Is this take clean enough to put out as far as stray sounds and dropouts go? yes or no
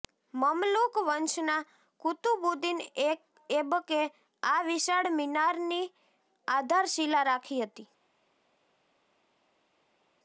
yes